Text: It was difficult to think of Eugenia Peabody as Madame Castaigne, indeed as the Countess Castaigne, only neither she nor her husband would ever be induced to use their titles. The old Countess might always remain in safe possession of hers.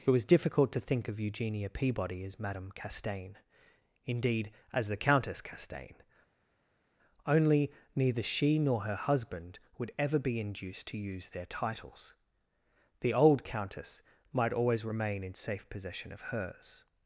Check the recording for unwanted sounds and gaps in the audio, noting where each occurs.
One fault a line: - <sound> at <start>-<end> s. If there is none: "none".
none